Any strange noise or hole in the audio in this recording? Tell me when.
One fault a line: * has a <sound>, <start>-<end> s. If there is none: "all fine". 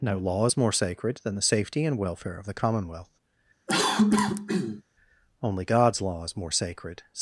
* has a cough, 3.7-4.8 s